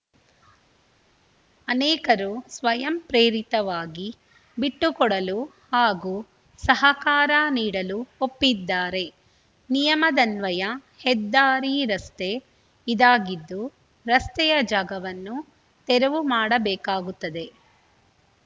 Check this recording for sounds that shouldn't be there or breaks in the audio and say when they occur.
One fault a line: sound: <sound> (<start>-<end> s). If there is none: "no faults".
no faults